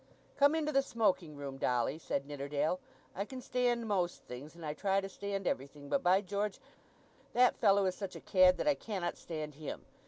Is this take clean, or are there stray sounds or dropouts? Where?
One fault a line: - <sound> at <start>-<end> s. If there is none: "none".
none